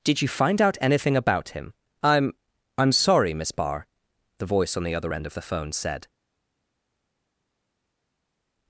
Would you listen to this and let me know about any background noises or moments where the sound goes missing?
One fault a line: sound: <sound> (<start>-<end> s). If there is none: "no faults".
no faults